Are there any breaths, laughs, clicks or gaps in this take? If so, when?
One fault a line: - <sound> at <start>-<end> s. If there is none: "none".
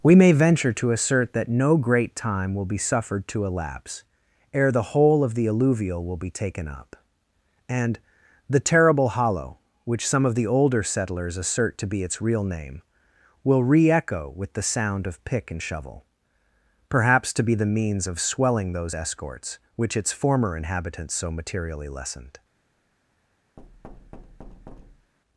- thud at 23.6-25.1 s